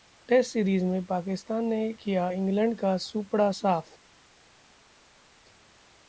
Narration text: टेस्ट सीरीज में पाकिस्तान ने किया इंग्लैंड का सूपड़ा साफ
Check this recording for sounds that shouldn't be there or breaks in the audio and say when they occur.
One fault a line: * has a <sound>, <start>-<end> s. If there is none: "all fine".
all fine